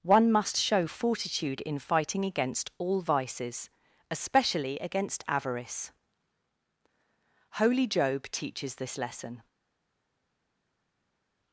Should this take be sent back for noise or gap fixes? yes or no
no